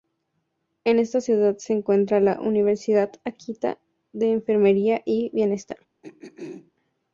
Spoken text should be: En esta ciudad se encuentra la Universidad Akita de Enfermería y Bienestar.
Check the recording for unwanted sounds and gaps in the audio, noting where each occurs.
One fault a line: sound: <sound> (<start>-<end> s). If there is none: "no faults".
sound: throat clearing (6.0-6.7 s)